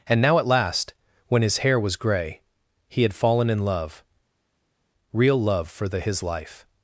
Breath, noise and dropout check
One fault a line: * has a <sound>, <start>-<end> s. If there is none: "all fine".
all fine